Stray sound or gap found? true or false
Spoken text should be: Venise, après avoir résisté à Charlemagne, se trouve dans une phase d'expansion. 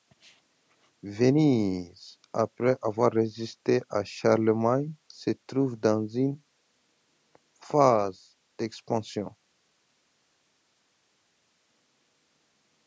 false